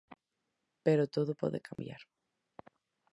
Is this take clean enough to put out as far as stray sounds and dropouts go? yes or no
no